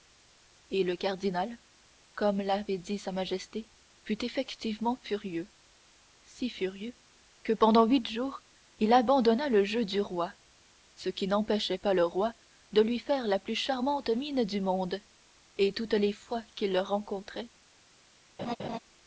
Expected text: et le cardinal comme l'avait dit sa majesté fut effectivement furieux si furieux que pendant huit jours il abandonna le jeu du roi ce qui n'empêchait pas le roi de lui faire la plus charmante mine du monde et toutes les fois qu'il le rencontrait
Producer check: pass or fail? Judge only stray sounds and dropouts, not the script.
fail